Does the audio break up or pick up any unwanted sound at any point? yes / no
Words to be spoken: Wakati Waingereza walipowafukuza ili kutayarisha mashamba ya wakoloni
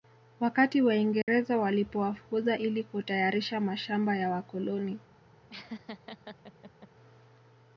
yes